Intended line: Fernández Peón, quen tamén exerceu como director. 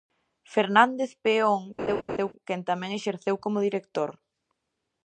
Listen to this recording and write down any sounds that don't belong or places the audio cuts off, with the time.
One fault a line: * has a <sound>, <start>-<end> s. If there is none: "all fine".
* has a laugh, 1.8-2.3 s